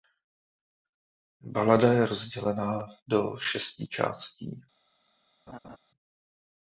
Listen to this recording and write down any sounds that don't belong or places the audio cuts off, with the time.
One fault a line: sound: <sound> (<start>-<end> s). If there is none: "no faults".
sound: laugh (5.5-5.8 s)